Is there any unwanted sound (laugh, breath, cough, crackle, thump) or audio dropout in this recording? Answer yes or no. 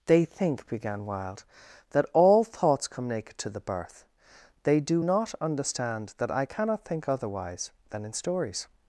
no